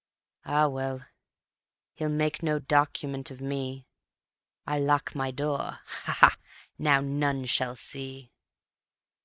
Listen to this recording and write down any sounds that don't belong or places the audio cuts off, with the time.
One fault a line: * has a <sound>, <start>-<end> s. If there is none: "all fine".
all fine